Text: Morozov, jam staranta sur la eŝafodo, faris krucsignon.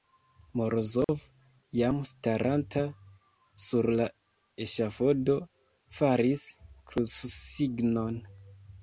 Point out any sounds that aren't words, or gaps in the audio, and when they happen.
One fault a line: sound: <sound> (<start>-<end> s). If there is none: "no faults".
sound: dropout (1.0-1.1 s)